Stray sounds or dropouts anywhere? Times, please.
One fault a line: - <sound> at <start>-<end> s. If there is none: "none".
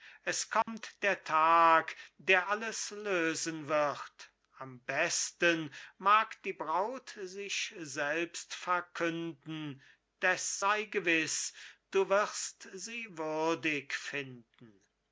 - dropout at 0.6-0.7 s